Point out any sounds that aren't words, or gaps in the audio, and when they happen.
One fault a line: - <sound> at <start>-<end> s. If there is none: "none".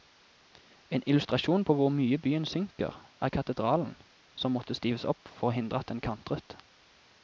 none